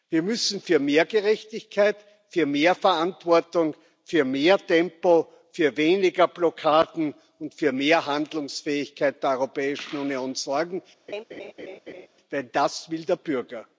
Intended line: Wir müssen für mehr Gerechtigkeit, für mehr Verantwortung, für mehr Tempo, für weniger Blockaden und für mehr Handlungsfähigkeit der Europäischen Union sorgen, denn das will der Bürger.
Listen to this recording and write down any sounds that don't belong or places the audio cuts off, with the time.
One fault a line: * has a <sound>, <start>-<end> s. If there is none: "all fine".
* has a laugh, 11.1-12.1 s